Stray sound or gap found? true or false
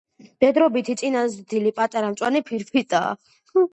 false